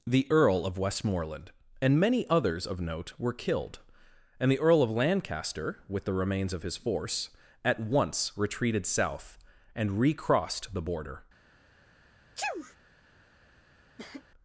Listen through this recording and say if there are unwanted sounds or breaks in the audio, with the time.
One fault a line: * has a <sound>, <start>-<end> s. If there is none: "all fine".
* has a sneeze, 12.4-12.8 s
* has a cough, 14.0-14.2 s